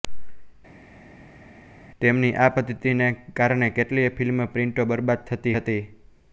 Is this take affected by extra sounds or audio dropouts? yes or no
no